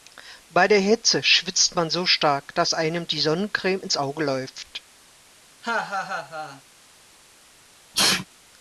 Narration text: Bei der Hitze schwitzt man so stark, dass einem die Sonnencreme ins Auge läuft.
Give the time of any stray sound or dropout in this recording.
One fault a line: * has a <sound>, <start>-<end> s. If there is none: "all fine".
* has a laugh, 5.6-6.6 s
* has a sneeze, 7.9-8.3 s